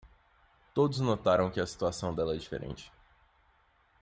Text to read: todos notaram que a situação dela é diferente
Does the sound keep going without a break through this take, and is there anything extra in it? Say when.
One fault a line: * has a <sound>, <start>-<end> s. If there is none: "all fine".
all fine